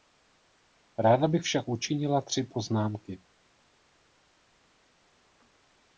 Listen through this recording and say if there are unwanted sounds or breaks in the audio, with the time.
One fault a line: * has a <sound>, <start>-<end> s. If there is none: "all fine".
all fine